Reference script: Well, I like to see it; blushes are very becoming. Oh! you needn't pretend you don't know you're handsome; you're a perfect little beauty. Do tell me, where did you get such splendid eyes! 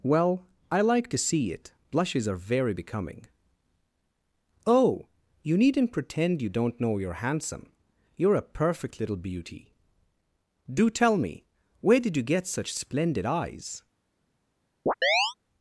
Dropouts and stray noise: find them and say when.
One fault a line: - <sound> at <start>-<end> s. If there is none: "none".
- chirp at 14.9-15.3 s